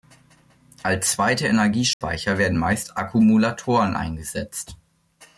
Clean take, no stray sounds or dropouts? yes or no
no